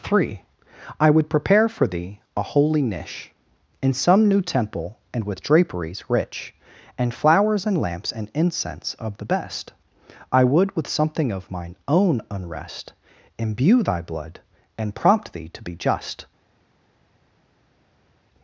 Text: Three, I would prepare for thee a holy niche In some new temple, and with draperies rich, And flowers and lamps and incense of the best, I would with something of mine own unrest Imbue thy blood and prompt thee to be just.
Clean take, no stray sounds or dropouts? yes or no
yes